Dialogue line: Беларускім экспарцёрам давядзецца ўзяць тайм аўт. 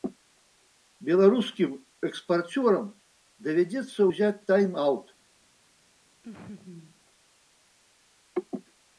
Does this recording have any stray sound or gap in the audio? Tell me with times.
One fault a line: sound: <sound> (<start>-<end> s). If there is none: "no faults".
sound: laugh (6.2-7.0 s)